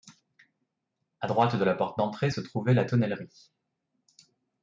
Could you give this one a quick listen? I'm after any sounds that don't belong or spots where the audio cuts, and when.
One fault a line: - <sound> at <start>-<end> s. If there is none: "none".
none